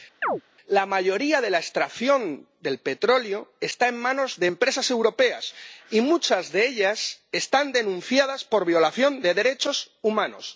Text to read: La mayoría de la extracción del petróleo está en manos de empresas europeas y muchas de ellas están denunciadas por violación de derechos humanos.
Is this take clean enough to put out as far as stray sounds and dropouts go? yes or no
no